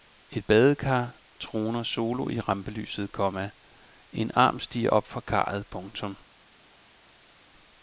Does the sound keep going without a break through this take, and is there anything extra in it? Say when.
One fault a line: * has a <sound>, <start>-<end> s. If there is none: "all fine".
all fine